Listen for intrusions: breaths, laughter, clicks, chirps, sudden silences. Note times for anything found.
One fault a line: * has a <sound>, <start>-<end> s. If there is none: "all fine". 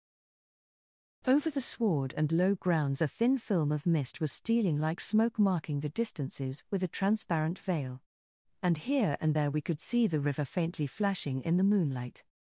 all fine